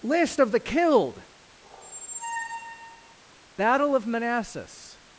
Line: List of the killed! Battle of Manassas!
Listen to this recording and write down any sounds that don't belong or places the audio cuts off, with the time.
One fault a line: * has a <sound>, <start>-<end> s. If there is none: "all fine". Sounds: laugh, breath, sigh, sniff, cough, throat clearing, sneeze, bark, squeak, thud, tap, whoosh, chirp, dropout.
* has a squeak, 1.6-3.2 s